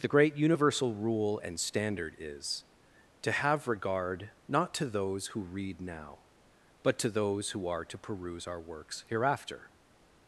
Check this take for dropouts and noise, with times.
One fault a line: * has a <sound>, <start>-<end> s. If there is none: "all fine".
all fine